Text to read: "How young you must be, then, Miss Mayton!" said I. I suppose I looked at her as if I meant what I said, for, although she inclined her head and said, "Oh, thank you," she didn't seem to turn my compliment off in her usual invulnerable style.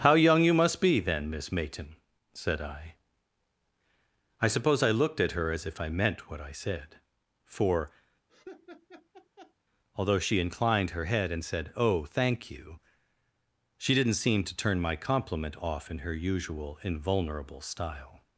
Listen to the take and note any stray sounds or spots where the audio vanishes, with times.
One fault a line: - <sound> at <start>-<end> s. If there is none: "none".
- laugh at 8.3-9.5 s